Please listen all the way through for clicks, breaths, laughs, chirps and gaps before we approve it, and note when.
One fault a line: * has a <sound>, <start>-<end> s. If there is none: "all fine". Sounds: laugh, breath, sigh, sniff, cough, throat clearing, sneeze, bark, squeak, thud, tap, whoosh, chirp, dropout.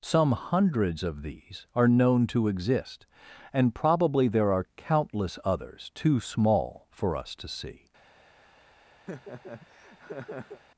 * has a laugh, 9.1-10.6 s